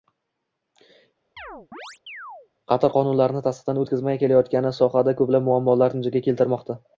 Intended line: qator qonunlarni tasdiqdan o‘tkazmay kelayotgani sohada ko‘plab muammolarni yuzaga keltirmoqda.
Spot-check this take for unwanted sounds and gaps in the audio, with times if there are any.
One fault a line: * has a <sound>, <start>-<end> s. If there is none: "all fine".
* has a chirp, 1.4-2.5 s